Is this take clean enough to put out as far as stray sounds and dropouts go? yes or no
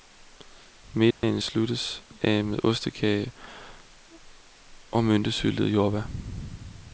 no